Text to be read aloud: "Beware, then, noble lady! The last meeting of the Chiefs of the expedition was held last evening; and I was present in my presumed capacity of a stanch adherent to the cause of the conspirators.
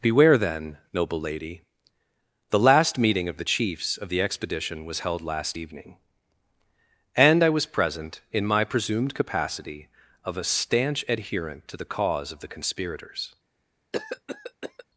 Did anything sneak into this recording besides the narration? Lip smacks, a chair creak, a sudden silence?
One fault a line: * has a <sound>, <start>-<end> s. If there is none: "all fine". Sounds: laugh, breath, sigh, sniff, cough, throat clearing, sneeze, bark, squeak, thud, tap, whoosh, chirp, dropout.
* has a cough, 13.9-14.8 s